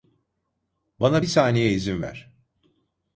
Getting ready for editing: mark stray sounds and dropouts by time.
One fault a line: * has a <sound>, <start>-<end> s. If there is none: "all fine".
all fine